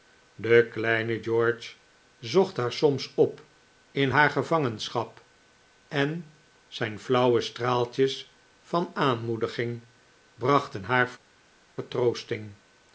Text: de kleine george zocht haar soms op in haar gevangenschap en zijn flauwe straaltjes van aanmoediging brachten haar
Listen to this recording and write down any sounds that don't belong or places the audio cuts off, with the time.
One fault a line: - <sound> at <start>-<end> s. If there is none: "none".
none